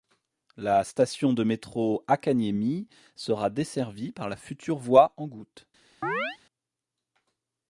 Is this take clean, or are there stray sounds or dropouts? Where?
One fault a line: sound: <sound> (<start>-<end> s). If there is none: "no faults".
sound: chirp (6.0-6.4 s)